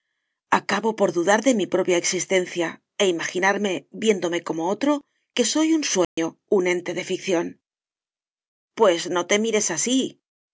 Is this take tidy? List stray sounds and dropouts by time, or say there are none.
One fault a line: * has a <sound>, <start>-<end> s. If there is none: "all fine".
* has a dropout, 6.0-6.2 s